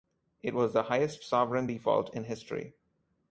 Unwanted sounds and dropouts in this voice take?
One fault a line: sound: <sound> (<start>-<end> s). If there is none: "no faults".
no faults